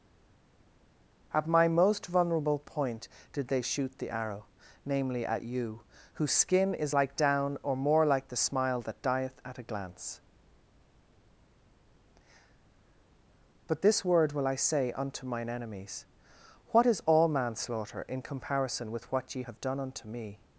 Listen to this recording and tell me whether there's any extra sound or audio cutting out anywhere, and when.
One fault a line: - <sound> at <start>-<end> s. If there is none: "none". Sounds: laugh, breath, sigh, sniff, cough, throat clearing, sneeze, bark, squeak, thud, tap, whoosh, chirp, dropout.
none